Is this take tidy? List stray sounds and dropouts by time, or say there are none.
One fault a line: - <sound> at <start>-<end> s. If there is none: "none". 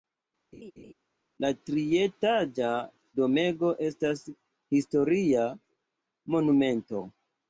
- laugh at 0.5-0.9 s